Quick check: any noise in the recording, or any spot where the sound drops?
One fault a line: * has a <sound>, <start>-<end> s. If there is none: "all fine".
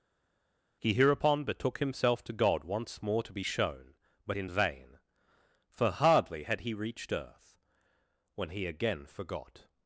all fine